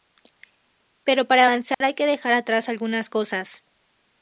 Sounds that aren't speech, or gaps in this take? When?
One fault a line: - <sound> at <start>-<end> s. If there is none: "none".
- dropout at 1.7-1.8 s